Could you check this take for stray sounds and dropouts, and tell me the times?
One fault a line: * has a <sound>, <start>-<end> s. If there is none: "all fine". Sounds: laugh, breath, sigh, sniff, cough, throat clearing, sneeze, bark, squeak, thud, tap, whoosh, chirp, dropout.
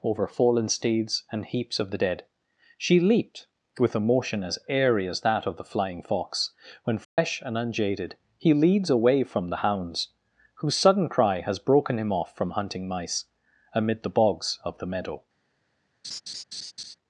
* has a dropout, 7.0-7.2 s
* has a laugh, 16.0-16.9 s